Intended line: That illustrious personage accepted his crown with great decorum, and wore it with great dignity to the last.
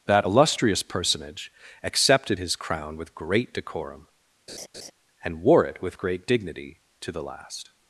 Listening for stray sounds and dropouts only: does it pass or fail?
fail